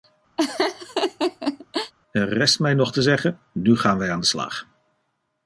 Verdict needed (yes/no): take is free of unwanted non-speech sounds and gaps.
no